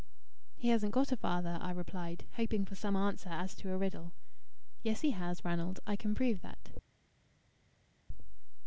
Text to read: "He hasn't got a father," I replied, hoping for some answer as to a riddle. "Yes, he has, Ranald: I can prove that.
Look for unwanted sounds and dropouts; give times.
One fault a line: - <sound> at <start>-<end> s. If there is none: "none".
none